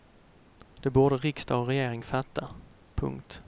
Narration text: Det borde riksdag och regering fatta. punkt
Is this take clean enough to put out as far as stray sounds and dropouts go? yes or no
yes